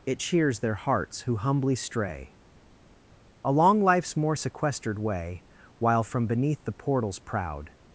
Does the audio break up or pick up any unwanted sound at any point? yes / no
no